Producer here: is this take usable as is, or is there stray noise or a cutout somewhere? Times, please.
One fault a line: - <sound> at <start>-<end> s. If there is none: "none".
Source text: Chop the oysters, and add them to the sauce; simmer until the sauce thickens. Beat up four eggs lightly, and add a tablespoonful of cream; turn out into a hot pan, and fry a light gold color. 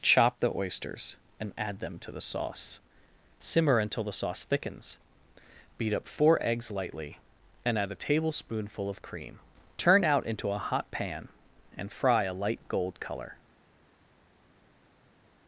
none